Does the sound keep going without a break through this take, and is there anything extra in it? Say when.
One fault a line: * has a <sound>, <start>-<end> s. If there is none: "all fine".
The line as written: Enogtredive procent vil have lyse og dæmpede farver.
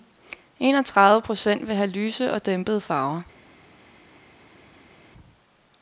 all fine